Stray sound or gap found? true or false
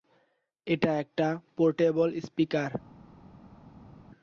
false